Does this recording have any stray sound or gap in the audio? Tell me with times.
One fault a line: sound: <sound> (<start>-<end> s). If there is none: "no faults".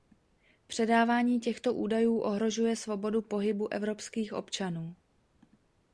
no faults